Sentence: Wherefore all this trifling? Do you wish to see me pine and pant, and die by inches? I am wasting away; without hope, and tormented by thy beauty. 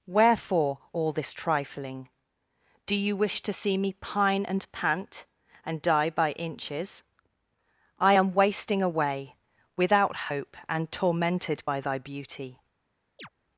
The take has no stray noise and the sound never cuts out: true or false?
false